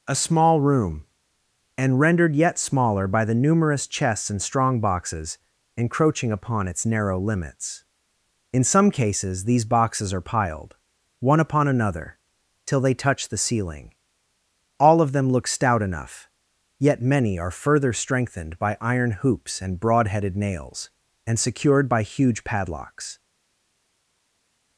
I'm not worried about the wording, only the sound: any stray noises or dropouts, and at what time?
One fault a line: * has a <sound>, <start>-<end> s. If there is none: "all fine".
all fine